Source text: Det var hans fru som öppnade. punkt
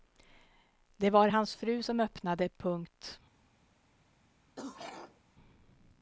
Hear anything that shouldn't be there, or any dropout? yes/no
yes